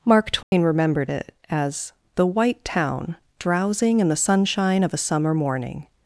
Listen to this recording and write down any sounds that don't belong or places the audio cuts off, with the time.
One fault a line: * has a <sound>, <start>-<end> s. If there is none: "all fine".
* has a dropout, 0.4-0.5 s